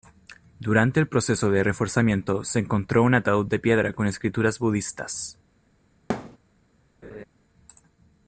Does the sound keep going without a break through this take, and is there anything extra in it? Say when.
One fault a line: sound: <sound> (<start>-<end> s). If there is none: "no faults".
sound: thud (6.1-6.4 s)
sound: laugh (7.0-7.2 s)